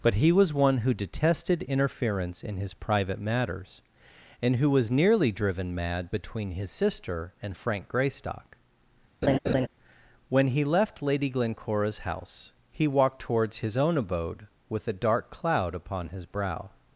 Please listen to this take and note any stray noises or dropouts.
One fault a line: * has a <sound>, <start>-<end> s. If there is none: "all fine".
* has a laugh, 9.2-9.7 s